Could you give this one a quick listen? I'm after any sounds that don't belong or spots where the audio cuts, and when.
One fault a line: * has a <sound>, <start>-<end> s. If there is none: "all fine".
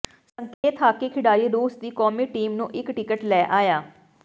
* has a dropout, 0.5-0.6 s